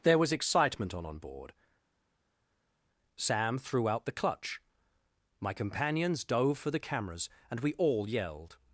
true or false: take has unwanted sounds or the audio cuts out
false